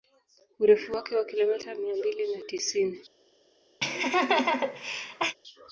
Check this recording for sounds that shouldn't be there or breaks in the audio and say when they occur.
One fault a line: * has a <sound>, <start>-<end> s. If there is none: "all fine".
* has a laugh, 3.8-5.4 s